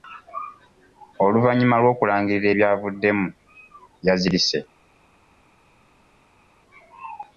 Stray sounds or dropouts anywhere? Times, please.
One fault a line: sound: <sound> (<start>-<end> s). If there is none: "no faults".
no faults